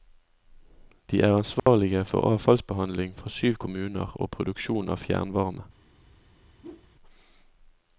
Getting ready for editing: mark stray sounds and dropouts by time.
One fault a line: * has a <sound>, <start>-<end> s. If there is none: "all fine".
* has a dropout, 1.6-1.7 s
* has a whoosh, 6.6-6.9 s